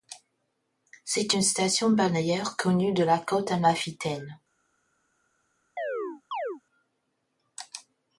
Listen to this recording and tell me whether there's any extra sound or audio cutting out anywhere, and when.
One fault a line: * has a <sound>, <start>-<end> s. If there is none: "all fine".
* has a chirp, 5.8-6.6 s